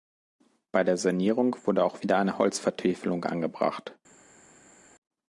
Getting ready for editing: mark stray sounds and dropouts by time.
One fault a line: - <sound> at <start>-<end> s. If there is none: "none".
none